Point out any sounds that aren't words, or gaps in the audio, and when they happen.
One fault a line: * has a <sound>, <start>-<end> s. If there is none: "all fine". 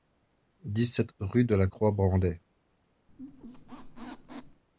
* has a squeak, 3.1-4.6 s